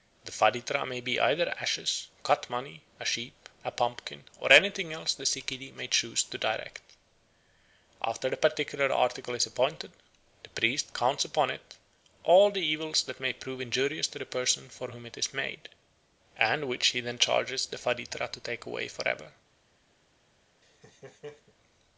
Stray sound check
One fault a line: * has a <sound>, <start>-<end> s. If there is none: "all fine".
* has a laugh, 20.6-21.5 s